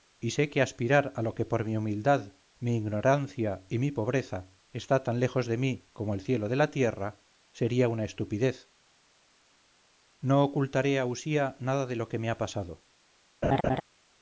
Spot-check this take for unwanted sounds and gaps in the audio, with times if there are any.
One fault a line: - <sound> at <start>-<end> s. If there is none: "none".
- laugh at 13.4-13.8 s